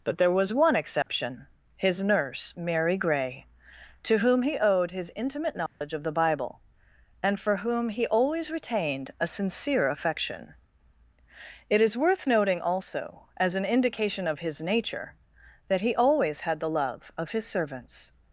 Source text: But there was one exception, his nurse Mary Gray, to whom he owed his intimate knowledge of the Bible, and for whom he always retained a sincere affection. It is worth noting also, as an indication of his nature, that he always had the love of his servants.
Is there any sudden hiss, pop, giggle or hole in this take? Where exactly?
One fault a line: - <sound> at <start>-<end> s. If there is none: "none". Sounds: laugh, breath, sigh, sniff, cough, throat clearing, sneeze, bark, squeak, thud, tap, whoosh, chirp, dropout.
- dropout at 1.0-1.1 s
- dropout at 5.7-5.8 s